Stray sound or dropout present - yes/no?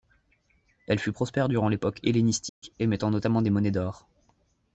yes